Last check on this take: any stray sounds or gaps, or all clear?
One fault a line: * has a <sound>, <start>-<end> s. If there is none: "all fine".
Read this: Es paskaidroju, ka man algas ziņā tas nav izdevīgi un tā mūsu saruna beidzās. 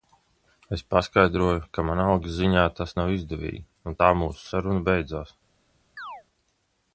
* has a chirp, 6.0-6.2 s